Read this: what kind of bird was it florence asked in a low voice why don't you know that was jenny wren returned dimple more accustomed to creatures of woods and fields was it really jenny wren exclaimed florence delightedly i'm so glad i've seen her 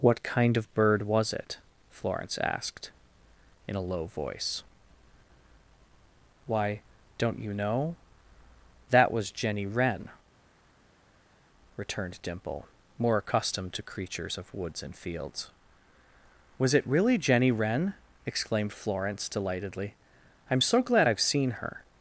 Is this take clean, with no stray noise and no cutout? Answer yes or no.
yes